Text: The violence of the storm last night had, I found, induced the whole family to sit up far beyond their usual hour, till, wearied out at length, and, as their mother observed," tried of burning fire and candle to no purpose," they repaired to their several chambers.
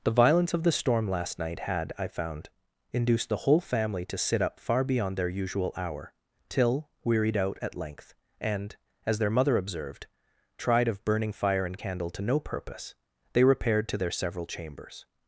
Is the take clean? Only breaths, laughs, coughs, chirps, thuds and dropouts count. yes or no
yes